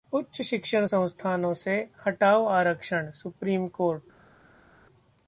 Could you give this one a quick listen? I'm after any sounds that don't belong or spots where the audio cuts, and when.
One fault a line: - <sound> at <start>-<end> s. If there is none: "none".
none